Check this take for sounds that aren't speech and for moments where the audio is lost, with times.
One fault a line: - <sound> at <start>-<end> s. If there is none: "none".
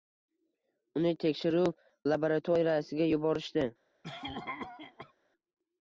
- cough at 4.0-5.1 s